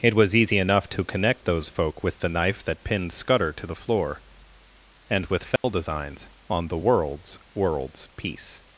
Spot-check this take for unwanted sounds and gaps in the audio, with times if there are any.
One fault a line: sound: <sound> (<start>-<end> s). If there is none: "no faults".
sound: dropout (5.6-5.6 s)